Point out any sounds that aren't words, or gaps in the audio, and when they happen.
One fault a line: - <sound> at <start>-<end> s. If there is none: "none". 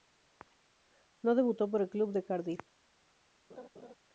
- laugh at 3.5-4.0 s